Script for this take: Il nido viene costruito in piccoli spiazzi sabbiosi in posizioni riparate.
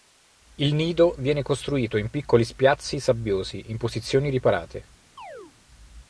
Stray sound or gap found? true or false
true